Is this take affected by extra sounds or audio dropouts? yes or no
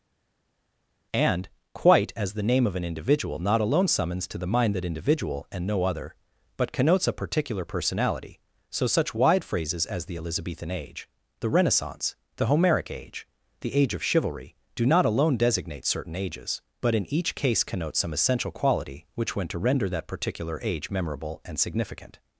no